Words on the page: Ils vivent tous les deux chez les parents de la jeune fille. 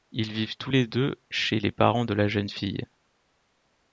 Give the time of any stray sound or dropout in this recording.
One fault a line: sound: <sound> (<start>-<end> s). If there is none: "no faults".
no faults